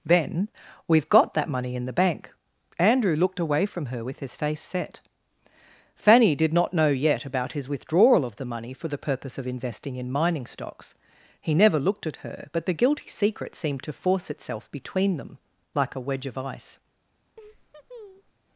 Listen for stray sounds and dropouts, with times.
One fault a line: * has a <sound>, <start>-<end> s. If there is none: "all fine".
* has a laugh, 17.4-18.3 s